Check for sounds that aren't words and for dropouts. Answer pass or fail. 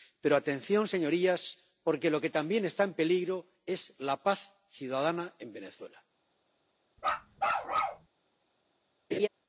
fail